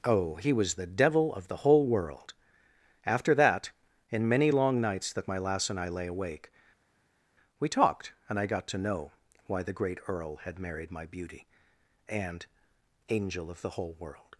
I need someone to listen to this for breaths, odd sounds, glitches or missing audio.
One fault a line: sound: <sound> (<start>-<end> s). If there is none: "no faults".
no faults